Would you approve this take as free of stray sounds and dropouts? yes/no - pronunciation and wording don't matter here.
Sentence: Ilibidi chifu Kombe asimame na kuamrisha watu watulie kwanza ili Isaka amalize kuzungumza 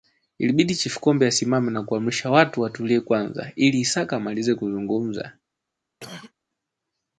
no